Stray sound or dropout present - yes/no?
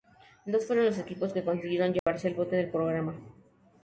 yes